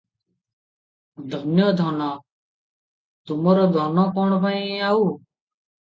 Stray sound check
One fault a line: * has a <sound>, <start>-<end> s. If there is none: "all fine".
all fine